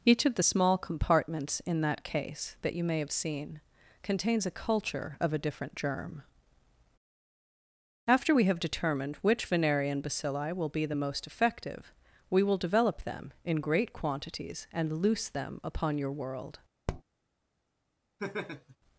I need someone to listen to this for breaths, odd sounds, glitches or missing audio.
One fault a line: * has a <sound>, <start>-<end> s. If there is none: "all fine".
* has a tap, 16.9-17.0 s
* has a laugh, 18.2-18.8 s